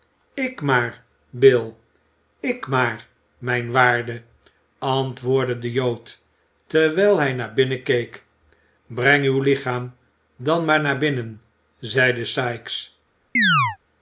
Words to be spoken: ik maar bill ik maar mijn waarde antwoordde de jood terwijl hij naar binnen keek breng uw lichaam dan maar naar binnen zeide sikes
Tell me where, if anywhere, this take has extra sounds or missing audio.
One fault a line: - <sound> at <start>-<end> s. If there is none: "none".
- chirp at 13.4-13.8 s